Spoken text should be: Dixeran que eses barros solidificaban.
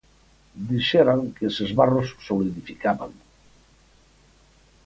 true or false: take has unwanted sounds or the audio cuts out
false